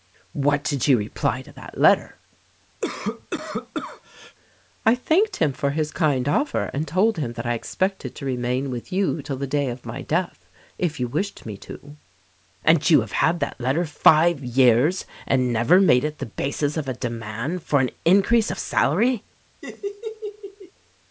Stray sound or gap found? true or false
true